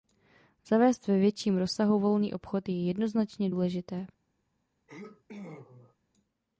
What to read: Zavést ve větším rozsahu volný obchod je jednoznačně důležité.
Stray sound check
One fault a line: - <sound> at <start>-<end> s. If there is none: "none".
- sneeze at 4.9-6.0 s